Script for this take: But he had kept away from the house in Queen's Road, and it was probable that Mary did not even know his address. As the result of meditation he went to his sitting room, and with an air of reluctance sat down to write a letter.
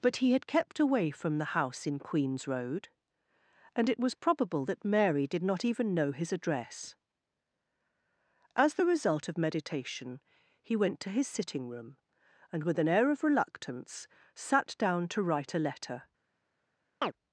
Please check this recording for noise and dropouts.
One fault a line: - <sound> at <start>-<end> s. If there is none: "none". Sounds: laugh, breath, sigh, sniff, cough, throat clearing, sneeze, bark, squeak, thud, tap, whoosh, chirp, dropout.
- chirp at 17.0-17.1 s